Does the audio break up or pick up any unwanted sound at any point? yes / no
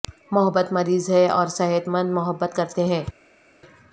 no